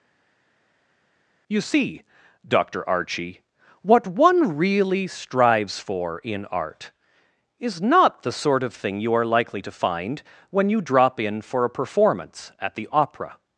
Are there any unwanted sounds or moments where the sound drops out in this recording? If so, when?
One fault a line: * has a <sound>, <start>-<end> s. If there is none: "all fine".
all fine